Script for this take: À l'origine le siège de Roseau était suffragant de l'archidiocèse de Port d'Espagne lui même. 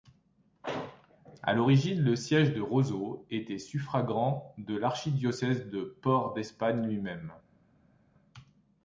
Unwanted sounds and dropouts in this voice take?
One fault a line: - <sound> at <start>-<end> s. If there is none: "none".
none